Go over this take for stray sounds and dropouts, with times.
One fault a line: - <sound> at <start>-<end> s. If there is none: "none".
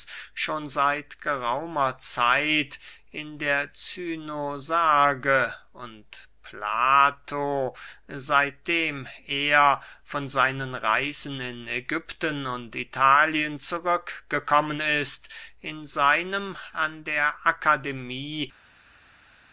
none